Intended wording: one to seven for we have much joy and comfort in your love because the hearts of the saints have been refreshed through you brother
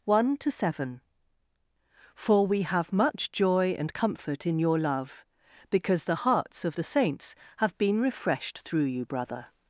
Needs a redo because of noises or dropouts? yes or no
no